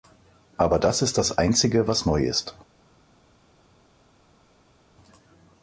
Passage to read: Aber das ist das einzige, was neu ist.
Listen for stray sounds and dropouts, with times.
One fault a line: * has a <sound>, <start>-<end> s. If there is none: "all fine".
all fine